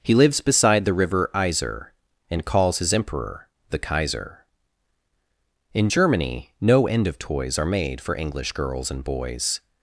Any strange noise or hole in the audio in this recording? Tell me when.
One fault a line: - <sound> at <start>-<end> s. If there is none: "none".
none